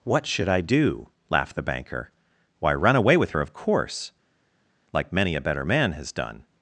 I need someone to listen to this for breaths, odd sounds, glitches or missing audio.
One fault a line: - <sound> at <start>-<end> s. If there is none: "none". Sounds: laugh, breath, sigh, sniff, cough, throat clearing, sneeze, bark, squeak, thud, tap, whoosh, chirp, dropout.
none